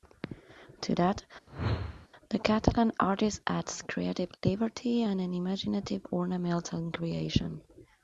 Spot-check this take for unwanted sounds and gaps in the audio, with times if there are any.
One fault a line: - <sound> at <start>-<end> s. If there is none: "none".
- whoosh at 1.5-2.1 s